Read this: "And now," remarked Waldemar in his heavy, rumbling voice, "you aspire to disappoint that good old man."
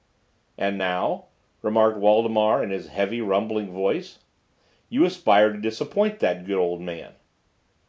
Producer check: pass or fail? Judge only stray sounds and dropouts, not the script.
pass